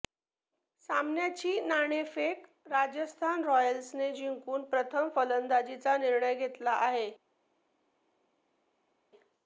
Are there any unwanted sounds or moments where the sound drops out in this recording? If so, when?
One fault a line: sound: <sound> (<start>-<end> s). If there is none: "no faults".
no faults